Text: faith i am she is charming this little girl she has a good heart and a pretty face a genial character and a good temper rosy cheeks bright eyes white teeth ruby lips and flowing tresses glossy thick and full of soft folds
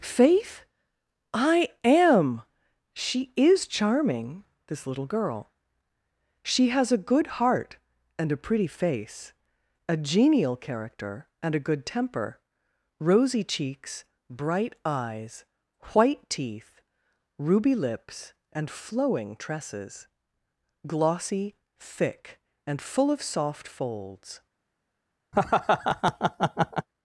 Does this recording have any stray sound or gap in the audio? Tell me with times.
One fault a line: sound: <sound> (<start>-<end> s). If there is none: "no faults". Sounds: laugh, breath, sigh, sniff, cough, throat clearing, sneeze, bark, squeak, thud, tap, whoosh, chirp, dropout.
sound: laugh (25.3-26.9 s)